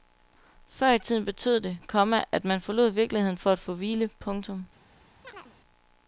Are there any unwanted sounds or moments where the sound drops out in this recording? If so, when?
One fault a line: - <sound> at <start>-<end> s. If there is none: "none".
- chirp at 5.2-5.6 s